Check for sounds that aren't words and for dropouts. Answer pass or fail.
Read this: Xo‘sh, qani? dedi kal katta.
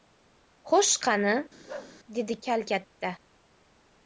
fail